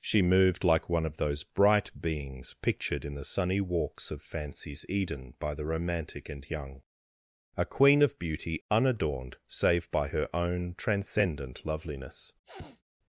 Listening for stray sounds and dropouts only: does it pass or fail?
fail